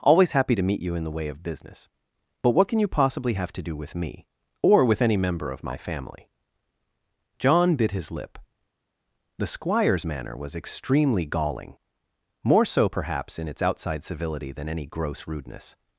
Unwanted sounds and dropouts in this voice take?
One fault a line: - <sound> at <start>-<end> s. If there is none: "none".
none